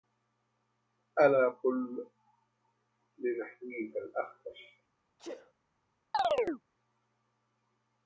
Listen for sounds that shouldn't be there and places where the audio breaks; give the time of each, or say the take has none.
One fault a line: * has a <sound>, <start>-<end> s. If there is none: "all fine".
* has a sneeze, 5.2-5.5 s
* has a chirp, 6.1-6.6 s